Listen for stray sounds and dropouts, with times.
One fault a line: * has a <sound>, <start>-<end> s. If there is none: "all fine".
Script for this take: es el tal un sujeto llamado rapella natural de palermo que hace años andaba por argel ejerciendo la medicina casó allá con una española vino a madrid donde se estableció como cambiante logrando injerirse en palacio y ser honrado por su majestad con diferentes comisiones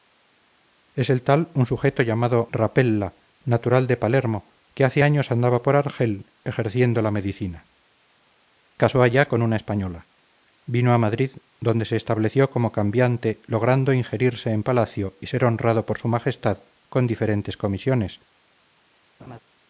* has a laugh, 19.2-19.4 s